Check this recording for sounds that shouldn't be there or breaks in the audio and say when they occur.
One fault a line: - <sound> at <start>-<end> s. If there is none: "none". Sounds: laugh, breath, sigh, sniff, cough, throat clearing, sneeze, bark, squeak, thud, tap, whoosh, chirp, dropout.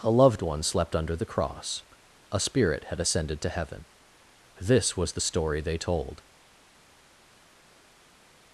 none